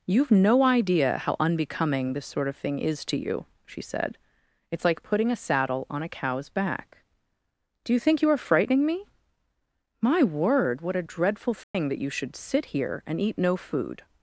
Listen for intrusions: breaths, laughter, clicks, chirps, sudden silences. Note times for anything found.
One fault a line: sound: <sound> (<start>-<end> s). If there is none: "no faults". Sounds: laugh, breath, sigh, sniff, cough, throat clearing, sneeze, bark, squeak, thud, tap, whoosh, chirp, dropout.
sound: dropout (11.6-11.7 s)